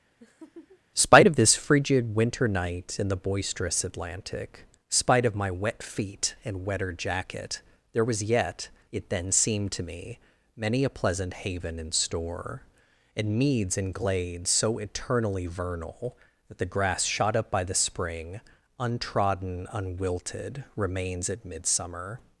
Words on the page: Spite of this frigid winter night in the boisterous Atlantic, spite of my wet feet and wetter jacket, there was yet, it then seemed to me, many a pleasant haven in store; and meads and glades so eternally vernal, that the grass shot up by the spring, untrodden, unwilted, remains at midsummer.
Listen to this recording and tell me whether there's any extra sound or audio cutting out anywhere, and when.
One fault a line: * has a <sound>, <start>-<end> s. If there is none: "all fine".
* has a laugh, 0.2-0.8 s